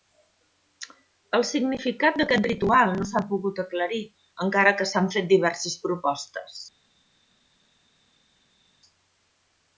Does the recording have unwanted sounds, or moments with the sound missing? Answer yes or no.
no